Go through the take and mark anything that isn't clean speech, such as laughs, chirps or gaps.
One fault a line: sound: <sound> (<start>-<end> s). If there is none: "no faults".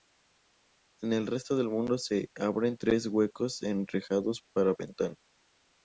no faults